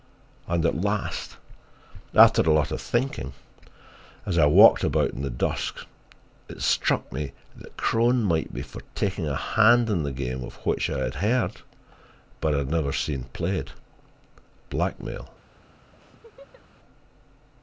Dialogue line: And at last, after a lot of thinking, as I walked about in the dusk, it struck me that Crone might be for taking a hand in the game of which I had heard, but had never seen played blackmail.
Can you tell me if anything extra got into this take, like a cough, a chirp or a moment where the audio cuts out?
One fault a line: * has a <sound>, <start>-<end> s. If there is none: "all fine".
* has a laugh, 15.9-16.6 s